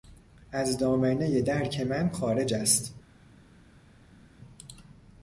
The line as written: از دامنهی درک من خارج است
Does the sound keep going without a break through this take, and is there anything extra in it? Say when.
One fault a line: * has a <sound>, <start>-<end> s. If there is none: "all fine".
all fine